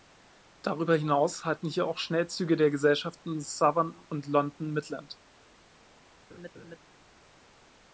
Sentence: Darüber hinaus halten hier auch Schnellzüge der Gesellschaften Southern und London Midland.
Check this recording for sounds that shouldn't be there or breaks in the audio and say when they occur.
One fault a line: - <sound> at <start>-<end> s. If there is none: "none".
- laugh at 6.3-6.8 s